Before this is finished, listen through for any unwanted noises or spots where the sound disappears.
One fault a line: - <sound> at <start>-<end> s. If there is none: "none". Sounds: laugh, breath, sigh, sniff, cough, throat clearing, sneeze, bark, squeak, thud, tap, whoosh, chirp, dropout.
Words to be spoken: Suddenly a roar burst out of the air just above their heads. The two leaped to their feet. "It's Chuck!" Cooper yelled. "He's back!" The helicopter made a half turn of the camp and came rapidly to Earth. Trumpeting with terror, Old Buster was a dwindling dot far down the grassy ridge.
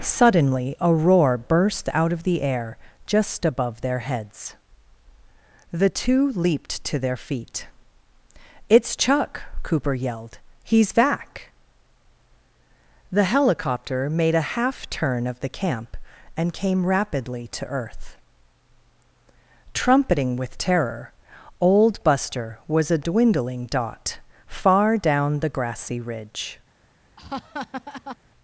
- laugh at 27.2-28.2 s